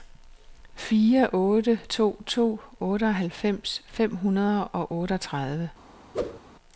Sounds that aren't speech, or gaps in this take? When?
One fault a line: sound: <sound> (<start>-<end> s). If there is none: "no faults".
sound: whoosh (6.1-6.4 s)